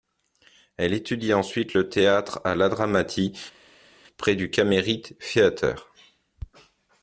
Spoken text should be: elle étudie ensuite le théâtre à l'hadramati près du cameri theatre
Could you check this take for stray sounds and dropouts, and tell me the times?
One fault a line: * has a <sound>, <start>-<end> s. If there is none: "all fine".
all fine